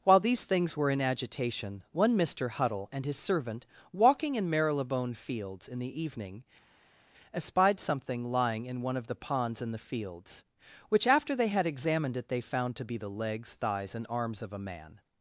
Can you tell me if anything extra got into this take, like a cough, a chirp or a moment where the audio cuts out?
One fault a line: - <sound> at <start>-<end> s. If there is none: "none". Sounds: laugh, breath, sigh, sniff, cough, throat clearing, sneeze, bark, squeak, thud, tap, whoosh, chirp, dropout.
none